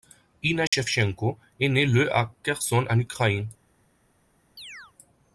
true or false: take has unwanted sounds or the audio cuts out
true